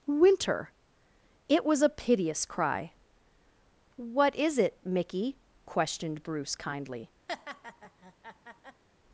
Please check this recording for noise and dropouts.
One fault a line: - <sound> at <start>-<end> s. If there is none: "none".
- laugh at 7.3-8.8 s